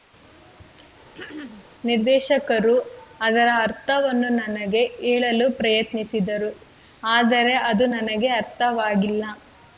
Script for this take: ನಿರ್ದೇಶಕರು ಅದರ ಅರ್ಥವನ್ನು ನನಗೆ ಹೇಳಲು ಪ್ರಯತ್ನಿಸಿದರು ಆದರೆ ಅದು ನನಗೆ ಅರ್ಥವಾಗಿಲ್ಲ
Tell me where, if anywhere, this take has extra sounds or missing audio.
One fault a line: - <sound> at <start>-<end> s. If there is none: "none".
- throat clearing at 1.1-1.6 s